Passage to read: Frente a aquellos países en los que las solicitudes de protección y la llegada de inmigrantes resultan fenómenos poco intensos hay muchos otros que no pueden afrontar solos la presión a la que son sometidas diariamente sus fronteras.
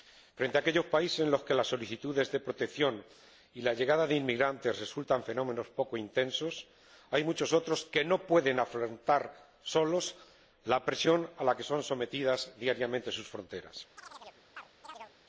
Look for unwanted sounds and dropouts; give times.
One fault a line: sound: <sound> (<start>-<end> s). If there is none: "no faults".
sound: chirp (14.0-15.1 s)